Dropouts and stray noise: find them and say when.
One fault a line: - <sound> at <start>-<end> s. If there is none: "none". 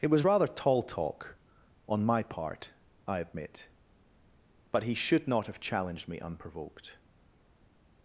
none